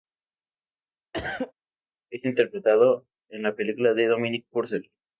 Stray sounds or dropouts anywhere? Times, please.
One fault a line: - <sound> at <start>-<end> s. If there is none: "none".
- cough at 1.1-1.5 s